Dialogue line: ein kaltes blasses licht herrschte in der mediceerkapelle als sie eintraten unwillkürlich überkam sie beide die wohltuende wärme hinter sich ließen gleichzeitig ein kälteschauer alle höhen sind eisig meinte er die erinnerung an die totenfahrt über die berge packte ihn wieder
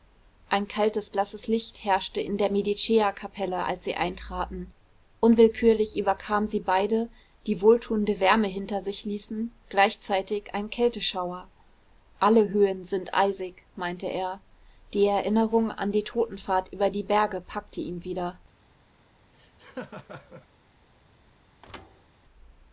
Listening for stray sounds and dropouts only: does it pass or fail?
fail